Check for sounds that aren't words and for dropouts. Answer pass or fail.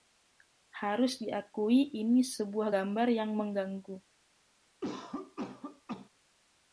fail